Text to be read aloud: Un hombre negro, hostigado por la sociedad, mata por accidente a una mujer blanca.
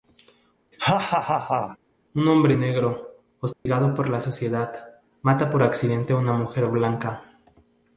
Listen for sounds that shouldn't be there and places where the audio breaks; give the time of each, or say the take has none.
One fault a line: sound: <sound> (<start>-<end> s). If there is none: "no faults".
sound: laugh (0.7-1.8 s)
sound: dropout (3.5-3.7 s)